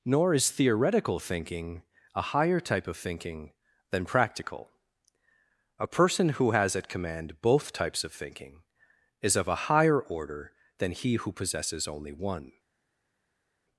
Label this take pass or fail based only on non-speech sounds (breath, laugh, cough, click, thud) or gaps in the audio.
pass